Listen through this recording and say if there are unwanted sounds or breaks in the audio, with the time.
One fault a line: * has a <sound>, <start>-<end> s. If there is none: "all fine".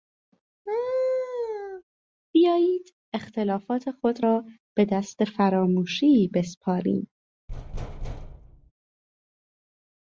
* has a laugh, 0.7-1.8 s
* has a thud, 7.5-8.7 s